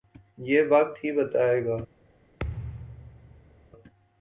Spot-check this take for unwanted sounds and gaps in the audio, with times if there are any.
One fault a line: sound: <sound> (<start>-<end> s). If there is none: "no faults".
sound: thud (2.4-3.7 s)